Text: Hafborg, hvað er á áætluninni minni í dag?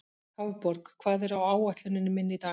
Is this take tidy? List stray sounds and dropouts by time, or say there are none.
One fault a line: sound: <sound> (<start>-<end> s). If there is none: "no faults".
no faults